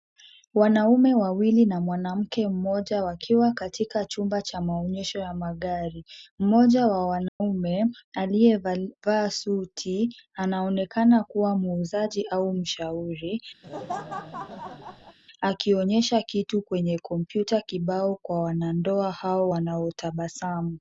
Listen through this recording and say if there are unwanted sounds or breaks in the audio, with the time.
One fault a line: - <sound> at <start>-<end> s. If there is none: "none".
- dropout at 7.3-7.4 s
- laugh at 13.6-15.2 s